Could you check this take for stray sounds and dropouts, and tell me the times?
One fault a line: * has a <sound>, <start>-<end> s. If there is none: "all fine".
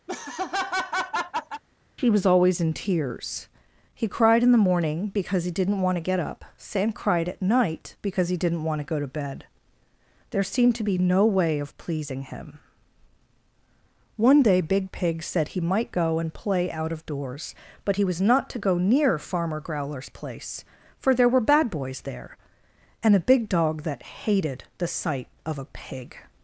* has a laugh, 0.1-1.6 s